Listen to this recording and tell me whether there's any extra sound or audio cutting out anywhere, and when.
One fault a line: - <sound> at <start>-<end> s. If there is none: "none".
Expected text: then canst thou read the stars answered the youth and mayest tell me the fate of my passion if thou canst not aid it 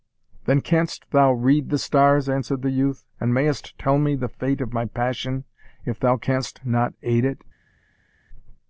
none